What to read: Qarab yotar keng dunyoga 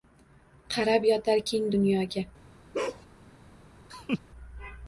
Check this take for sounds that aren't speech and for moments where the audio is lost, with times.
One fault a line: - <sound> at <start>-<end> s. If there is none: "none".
- bark at 2.7-3.1 s
- laugh at 3.9-4.2 s